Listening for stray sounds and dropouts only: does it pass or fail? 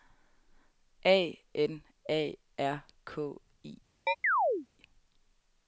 fail